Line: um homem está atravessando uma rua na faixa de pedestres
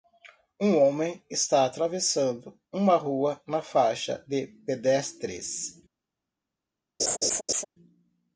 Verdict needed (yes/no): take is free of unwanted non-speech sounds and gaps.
no